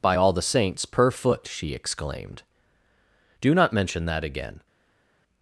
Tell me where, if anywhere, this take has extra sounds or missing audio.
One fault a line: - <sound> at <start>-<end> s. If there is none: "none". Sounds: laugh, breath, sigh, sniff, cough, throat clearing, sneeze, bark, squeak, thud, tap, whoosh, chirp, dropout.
none